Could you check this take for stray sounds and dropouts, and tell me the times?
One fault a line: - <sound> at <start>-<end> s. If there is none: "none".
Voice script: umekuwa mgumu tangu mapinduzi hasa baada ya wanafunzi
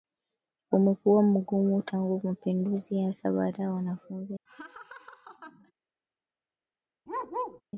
- laugh at 4.5-5.7 s
- bark at 7.1-7.6 s